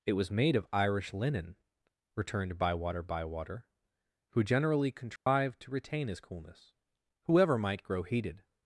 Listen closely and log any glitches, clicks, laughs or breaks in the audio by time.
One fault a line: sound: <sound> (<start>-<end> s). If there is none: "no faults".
sound: dropout (5.2-5.3 s)